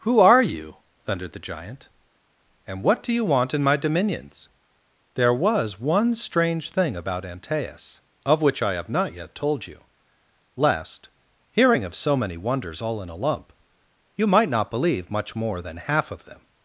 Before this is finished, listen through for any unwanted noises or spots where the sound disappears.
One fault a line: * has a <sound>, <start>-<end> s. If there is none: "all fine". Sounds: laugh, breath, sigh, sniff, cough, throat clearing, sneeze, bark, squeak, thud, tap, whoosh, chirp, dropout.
all fine